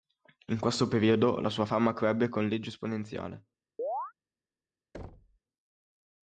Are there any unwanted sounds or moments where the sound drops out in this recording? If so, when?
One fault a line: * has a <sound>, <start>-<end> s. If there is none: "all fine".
* has a chirp, 3.8-4.1 s
* has a thud, 4.9-5.4 s